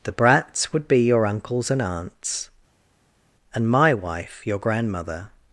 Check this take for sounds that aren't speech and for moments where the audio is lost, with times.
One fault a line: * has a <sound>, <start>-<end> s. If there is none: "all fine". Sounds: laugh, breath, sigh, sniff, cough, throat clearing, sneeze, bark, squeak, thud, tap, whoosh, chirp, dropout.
all fine